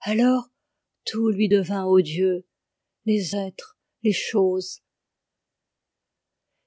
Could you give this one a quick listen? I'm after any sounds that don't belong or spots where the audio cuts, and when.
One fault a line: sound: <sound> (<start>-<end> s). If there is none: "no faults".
no faults